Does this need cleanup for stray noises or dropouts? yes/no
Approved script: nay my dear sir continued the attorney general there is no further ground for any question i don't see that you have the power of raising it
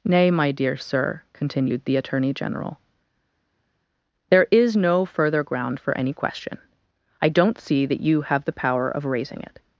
no